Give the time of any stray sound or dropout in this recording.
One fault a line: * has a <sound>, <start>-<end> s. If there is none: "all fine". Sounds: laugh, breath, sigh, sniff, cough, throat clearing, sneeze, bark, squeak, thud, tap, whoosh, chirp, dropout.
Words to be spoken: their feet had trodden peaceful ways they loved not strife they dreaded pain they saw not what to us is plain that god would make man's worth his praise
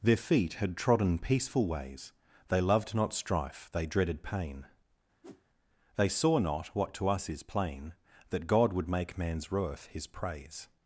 * has a whoosh, 5.2-5.4 s